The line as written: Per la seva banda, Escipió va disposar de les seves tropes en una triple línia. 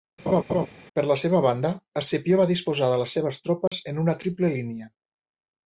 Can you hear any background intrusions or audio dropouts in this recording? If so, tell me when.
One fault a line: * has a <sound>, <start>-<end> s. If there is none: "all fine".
* has a laugh, 0.3-0.7 s
* has a dropout, 3.7-3.7 s